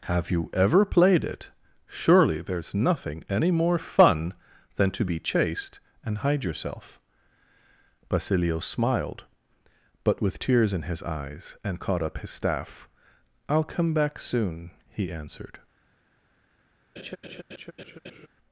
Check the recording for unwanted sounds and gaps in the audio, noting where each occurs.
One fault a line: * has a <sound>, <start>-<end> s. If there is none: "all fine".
* has a laugh, 17.0-18.3 s